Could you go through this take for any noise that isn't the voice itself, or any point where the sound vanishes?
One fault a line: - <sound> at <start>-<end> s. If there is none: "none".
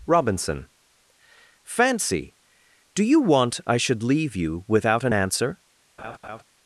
- laugh at 6.0-6.4 s